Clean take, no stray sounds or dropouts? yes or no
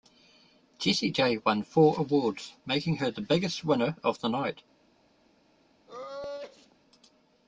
no